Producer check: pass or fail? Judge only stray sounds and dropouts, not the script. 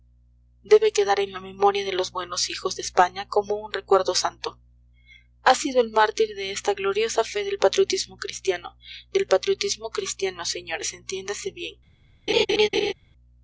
fail